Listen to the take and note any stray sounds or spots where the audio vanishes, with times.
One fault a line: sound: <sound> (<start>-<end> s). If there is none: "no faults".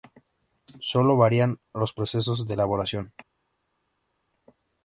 no faults